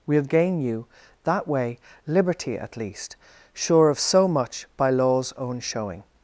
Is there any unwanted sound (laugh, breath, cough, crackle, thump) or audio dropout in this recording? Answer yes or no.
no